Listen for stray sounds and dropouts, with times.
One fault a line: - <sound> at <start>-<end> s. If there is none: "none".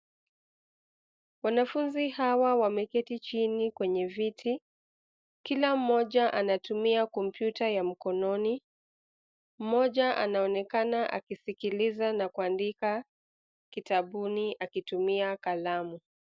none